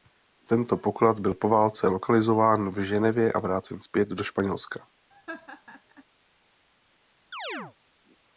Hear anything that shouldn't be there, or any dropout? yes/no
yes